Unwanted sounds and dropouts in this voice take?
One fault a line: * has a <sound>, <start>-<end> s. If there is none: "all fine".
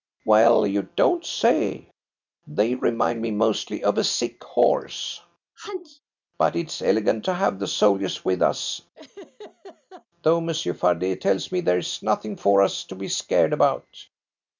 * has a sneeze, 5.6-6.0 s
* has a laugh, 8.9-10.1 s